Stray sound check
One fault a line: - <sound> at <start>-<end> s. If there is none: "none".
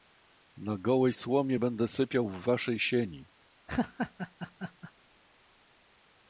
- laugh at 3.7-4.9 s